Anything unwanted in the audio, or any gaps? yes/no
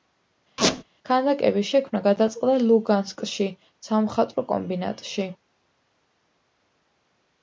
yes